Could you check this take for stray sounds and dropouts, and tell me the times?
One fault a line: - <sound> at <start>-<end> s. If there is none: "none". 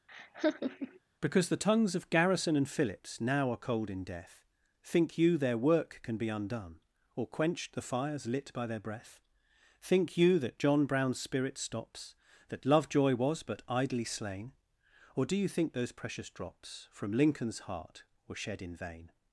- laugh at 0.1-1.0 s